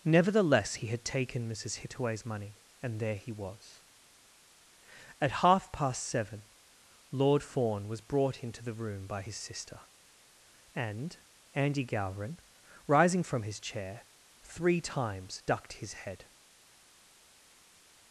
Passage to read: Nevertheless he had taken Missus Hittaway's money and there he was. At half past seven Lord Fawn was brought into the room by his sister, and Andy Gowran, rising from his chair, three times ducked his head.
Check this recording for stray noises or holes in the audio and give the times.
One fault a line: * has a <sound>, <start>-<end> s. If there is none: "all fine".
all fine